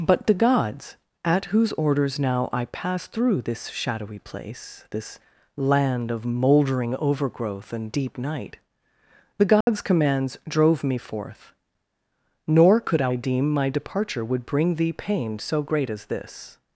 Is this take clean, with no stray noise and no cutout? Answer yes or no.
no